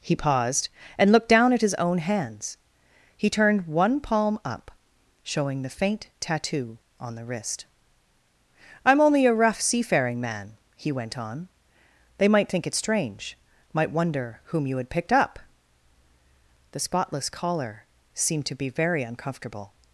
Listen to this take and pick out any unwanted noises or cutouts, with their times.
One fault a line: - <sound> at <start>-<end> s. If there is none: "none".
none